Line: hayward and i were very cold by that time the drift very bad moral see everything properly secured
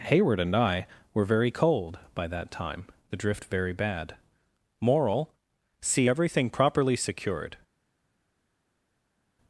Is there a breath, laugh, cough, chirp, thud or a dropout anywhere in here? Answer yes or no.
no